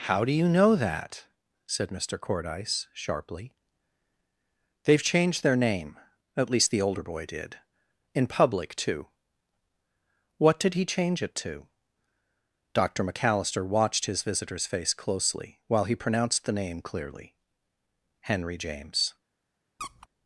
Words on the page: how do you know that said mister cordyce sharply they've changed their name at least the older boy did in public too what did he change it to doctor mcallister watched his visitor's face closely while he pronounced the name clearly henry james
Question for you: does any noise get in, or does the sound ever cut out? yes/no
yes